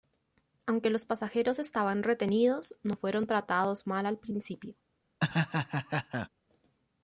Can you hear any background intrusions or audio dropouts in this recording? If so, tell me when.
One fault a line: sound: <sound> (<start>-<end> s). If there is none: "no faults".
sound: laugh (5.2-6.3 s)